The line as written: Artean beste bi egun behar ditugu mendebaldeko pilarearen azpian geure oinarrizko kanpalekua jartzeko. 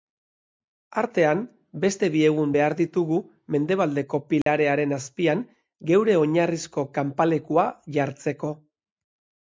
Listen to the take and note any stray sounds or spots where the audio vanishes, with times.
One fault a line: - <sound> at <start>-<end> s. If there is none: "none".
- dropout at 4.4-4.5 s